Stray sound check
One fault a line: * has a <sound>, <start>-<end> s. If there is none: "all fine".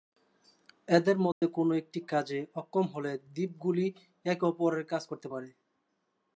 * has a dropout, 1.3-1.4 s